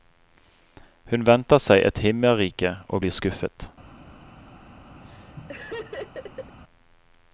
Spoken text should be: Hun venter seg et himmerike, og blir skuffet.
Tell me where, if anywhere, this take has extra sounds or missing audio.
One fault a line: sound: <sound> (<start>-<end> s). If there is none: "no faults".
sound: laugh (5.0-6.6 s)